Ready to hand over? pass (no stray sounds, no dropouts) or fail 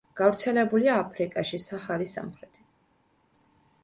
pass